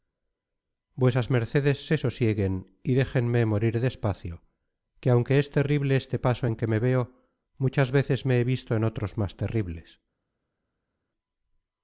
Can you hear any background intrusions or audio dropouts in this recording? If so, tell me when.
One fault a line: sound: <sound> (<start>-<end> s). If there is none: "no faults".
no faults